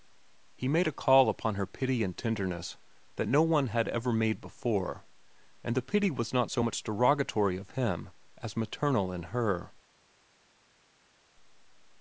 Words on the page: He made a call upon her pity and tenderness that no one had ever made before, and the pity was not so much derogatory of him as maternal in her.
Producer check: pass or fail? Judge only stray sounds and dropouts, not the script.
pass